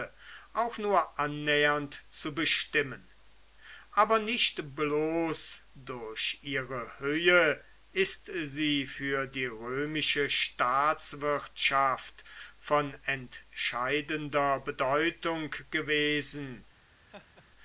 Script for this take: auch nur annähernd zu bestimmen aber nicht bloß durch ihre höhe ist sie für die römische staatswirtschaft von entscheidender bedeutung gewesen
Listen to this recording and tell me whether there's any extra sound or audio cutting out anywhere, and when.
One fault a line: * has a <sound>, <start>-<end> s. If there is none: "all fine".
* has a laugh, 17.1-17.5 s